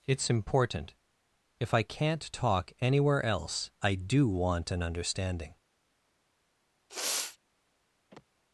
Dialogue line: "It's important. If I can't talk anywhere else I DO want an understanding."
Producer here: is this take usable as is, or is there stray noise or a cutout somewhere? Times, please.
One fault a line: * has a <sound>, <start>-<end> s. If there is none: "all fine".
* has a sniff, 6.9-7.4 s
* has a sigh, 8.1-8.3 s